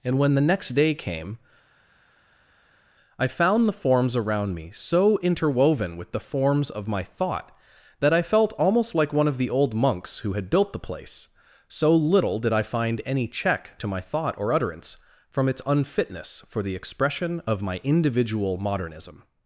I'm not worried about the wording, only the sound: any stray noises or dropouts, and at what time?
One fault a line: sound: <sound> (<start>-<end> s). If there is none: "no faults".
no faults